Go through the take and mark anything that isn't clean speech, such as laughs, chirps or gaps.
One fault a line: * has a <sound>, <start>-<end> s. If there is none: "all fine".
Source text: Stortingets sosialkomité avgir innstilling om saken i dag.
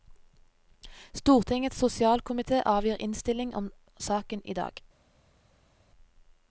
all fine